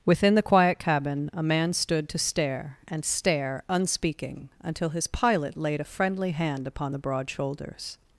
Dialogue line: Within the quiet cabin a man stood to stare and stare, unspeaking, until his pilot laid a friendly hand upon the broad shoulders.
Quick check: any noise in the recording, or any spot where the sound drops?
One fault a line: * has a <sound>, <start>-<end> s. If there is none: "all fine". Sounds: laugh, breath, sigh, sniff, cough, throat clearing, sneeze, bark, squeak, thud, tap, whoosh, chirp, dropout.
all fine